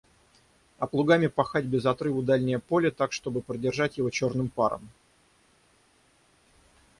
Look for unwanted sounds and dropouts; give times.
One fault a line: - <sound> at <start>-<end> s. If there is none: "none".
none